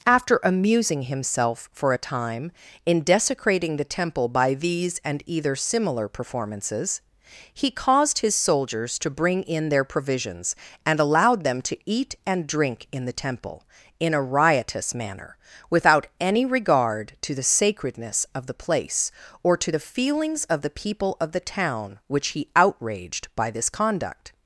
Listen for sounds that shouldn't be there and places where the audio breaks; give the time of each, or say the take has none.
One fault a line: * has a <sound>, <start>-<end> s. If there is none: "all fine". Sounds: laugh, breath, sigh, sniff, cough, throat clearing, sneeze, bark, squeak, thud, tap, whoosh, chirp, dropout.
all fine